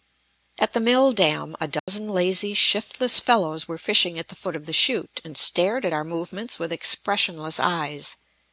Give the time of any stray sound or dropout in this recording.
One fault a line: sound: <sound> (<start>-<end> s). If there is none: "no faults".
sound: dropout (1.8-1.9 s)